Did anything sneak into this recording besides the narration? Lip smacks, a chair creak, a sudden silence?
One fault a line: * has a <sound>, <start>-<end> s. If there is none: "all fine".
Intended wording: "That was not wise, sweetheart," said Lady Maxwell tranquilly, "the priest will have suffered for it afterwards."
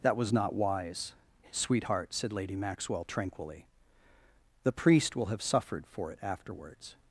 all fine